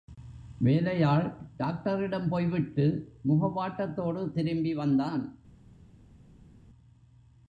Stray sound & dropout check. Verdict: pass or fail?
pass